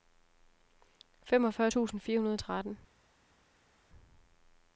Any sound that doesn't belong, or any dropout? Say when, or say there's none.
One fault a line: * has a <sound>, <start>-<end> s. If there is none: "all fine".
all fine